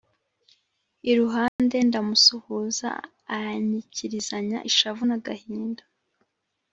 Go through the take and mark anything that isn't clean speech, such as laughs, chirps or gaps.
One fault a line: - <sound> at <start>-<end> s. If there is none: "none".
- dropout at 1.5-1.6 s